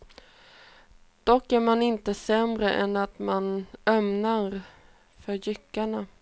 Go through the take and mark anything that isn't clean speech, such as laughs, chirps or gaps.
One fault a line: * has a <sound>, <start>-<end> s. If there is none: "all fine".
all fine